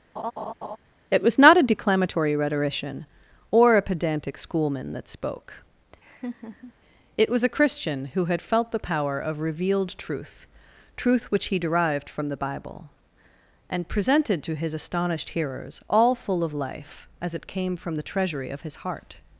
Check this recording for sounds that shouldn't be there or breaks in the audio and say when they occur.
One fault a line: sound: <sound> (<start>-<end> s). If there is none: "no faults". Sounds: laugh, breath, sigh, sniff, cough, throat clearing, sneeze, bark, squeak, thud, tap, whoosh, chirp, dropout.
sound: laugh (0.2-0.8 s)
sound: laugh (6.0-6.7 s)